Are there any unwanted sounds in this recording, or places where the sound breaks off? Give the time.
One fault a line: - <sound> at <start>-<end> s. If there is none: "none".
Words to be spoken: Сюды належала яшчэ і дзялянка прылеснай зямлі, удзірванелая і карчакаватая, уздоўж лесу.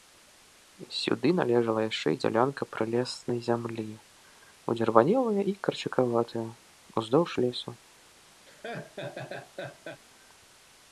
- laugh at 8.5-10.0 s